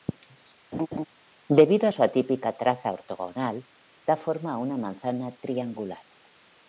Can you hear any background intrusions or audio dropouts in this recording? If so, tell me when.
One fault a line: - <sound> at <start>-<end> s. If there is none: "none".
- laugh at 0.7-1.1 s